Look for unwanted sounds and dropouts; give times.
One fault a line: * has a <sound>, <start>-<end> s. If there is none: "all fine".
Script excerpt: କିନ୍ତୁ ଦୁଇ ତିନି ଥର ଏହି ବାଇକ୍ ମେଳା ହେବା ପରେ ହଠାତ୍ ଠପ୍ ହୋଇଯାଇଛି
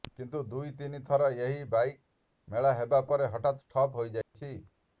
* has a dropout, 4.2-4.3 s